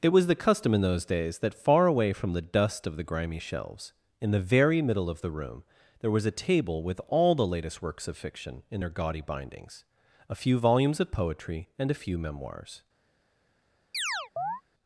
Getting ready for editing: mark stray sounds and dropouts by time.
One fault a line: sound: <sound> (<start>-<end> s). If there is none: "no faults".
sound: chirp (13.9-14.6 s)